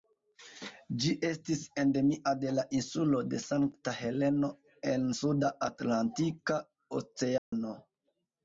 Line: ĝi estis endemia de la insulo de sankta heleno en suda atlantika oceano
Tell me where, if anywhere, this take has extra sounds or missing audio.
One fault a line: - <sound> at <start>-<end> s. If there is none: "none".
- dropout at 7.4-7.5 s